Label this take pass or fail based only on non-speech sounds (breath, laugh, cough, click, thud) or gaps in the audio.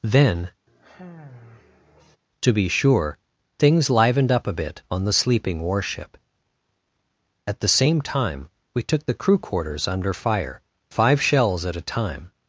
fail